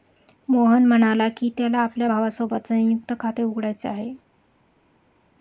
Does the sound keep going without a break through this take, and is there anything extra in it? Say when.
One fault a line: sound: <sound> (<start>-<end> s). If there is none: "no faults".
no faults